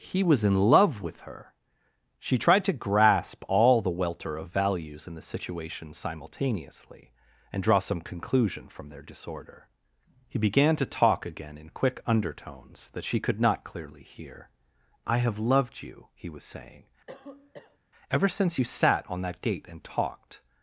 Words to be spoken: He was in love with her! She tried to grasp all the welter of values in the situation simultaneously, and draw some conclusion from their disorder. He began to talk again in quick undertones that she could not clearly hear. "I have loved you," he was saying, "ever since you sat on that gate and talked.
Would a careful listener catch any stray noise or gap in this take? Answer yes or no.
yes